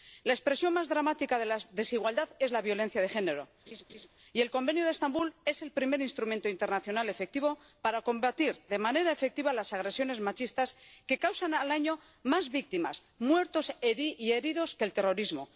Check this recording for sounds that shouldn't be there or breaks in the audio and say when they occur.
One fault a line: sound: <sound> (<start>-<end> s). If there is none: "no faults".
sound: laugh (3.7-4.1 s)